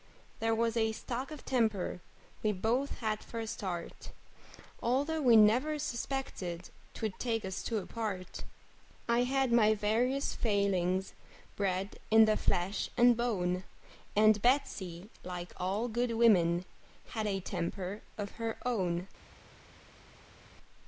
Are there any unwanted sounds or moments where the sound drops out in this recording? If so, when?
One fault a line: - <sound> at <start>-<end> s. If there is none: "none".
none